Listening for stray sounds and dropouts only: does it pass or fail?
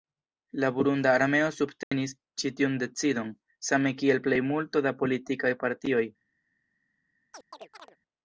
fail